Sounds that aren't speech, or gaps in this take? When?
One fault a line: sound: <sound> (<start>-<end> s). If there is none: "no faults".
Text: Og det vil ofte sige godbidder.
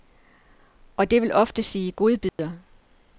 sound: dropout (2.3-2.4 s)